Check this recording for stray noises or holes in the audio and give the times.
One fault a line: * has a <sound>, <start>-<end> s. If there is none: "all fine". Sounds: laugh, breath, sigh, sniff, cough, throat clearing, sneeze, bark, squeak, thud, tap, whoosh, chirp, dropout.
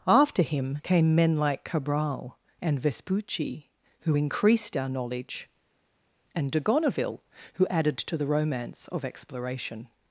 all fine